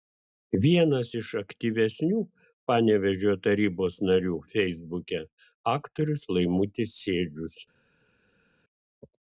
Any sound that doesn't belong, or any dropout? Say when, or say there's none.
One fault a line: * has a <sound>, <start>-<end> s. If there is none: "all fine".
all fine